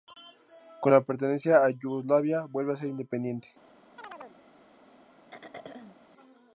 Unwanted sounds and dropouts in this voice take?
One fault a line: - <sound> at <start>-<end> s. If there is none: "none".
- chirp at 4.0-4.4 s
- throat clearing at 5.3-6.0 s